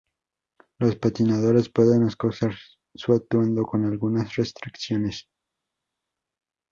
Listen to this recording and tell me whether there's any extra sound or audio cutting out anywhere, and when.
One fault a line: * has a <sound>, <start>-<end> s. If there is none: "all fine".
all fine